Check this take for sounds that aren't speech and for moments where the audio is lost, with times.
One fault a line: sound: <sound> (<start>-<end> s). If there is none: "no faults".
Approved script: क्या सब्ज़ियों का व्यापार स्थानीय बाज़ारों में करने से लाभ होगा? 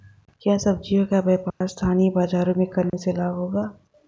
sound: dropout (1.5-1.6 s)
sound: dropout (2.9-2.9 s)